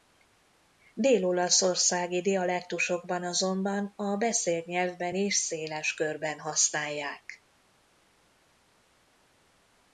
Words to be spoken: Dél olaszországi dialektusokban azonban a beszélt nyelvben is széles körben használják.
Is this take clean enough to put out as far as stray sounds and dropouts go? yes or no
yes